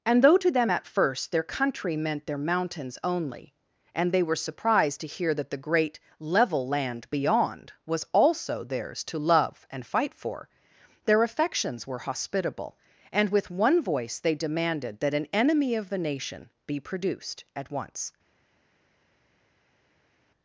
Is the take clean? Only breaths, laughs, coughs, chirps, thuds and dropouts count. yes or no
yes